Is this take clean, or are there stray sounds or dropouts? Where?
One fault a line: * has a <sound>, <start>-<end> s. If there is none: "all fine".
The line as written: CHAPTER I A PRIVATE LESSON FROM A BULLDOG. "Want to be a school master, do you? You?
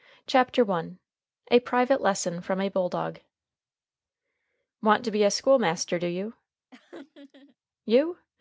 * has a laugh, 6.7-7.6 s